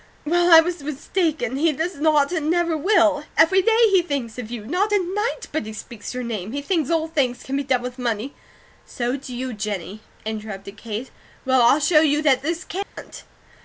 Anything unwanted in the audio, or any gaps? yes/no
yes